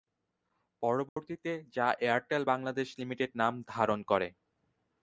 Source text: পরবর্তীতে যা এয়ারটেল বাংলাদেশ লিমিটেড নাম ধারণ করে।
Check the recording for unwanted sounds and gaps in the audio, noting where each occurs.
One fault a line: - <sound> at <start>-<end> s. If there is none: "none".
- dropout at 1.1-1.2 s